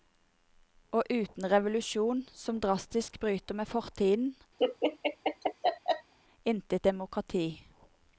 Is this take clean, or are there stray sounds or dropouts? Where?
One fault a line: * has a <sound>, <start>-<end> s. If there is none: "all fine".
* has a laugh, 4.6-6.1 s